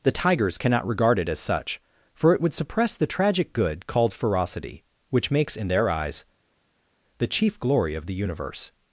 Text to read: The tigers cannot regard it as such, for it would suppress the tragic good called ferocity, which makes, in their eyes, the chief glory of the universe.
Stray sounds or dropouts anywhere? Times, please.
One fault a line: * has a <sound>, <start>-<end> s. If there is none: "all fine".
all fine